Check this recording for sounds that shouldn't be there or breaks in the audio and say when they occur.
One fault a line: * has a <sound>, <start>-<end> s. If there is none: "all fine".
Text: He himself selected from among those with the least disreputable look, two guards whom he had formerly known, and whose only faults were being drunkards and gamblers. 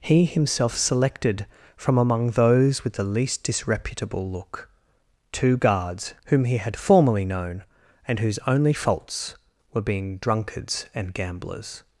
all fine